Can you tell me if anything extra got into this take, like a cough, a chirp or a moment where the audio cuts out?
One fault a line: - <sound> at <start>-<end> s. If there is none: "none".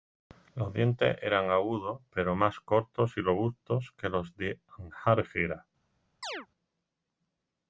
- chirp at 6.2-6.5 s